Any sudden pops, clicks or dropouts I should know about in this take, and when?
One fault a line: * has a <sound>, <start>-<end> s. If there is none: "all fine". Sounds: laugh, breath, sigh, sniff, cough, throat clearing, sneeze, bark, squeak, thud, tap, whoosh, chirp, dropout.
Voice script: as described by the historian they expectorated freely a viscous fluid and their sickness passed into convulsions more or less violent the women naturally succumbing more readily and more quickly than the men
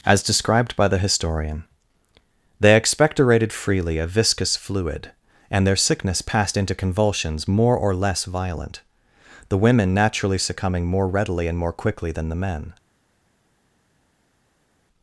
all fine